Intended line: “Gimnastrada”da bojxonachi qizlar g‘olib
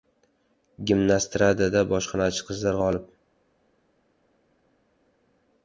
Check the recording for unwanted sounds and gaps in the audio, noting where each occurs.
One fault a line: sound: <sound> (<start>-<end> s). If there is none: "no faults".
no faults